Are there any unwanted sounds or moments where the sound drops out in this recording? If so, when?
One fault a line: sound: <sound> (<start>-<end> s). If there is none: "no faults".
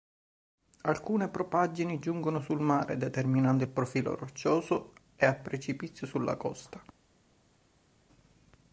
no faults